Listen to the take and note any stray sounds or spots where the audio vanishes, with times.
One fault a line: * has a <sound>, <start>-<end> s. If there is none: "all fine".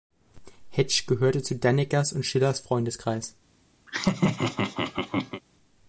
* has a laugh, 3.9-5.4 s